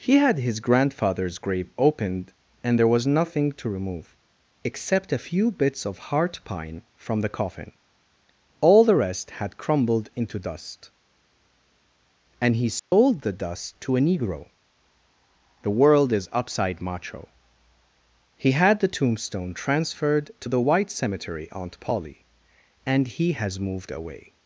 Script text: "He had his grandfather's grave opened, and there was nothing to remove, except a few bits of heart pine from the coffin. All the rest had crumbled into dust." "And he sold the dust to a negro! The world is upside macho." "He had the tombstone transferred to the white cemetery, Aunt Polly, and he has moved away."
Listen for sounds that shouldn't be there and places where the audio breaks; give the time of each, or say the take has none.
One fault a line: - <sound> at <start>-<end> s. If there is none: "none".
- dropout at 12.8-12.9 s